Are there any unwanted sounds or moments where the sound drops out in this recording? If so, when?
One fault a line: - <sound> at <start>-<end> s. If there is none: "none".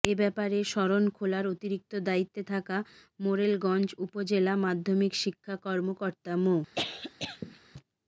- cough at 6.7-7.6 s